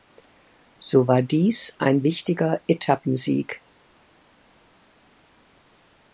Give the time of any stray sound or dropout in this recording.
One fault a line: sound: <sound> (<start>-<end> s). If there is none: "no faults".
no faults